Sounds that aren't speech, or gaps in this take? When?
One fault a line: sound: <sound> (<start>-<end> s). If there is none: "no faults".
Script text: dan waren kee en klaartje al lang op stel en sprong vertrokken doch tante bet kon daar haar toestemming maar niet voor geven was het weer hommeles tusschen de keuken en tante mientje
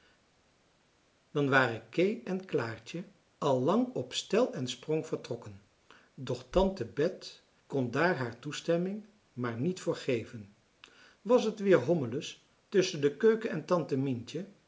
no faults